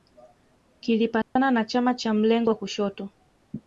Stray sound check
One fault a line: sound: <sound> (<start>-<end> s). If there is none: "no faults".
sound: dropout (1.2-1.4 s)